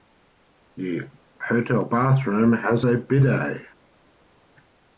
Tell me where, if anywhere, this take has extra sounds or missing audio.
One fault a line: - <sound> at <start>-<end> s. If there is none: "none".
none